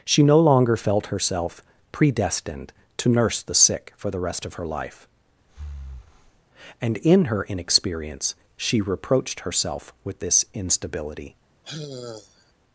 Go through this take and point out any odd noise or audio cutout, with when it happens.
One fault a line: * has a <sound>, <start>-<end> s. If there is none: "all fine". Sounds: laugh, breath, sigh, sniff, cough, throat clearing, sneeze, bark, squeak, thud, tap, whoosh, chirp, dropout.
* has a breath, 5.5-6.4 s
* has a sigh, 11.6-12.5 s